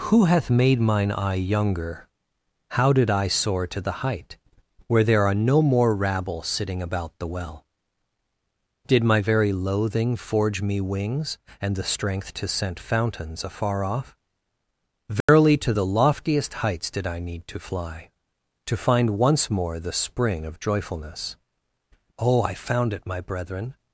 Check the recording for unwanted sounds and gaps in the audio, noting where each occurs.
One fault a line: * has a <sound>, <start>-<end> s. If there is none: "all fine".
* has a dropout, 15.2-15.3 s